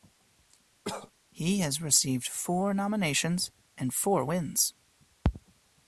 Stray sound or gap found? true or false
true